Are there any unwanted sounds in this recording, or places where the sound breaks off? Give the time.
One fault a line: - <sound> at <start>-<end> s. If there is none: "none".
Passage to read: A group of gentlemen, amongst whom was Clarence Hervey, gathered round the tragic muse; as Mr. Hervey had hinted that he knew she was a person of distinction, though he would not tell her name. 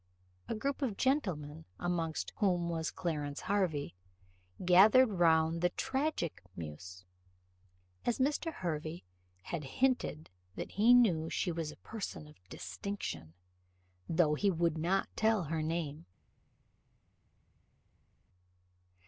none